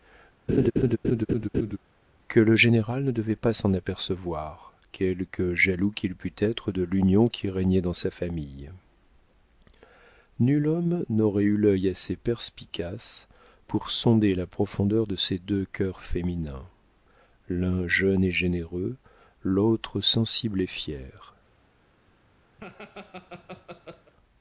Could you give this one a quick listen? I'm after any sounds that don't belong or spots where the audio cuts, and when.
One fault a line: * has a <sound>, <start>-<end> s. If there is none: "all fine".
* has a laugh, 0.5-1.8 s
* has a laugh, 22.6-24.1 s